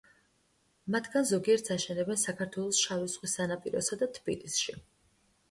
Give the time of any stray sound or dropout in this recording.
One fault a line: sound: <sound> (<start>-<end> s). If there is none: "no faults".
no faults